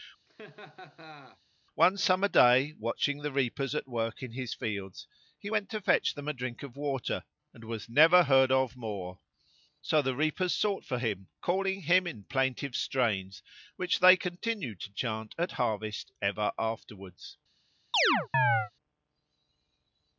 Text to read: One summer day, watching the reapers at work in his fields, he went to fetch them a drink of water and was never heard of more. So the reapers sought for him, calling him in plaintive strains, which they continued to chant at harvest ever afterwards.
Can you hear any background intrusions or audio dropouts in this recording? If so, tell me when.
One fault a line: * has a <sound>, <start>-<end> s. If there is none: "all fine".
* has a laugh, 0.3-1.4 s
* has a chirp, 17.9-18.7 s